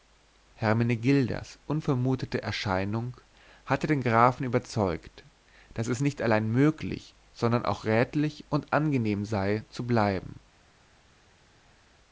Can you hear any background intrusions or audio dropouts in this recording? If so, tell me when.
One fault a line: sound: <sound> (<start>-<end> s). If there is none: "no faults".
no faults